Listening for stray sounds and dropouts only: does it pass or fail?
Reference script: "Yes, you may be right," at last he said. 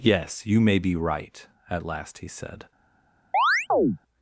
fail